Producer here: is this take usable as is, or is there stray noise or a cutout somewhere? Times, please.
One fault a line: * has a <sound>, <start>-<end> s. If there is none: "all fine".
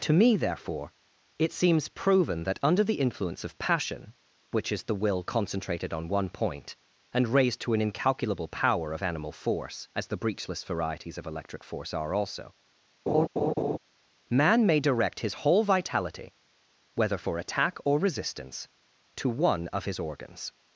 * has a laugh, 13.1-13.8 s